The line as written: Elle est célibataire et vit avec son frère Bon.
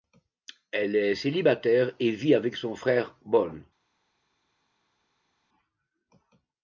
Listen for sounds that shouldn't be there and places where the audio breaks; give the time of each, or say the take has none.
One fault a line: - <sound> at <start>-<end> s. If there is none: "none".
none